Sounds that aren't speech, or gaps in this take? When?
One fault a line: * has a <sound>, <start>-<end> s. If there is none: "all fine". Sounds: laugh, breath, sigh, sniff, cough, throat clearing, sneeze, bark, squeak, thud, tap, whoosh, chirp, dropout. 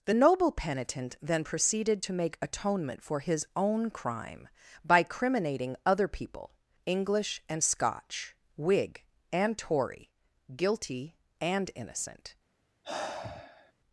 * has a sigh, 12.8-13.7 s